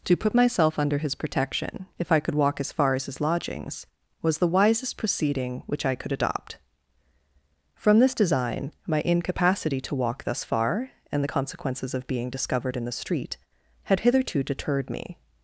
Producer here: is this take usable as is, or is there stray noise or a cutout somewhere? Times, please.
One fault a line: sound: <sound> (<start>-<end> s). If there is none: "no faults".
no faults